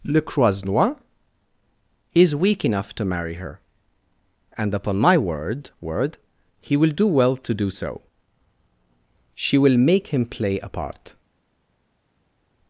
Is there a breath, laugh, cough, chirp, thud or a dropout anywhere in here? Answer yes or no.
no